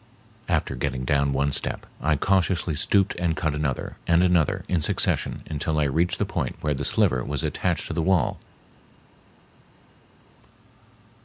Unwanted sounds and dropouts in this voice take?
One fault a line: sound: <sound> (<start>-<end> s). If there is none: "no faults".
no faults